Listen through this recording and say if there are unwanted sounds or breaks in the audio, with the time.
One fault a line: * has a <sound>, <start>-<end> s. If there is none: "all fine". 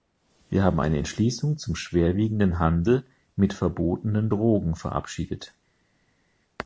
all fine